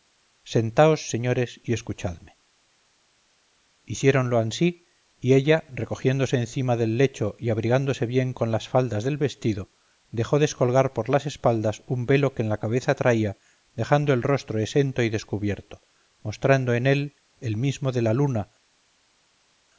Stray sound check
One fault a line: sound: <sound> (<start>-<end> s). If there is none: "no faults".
no faults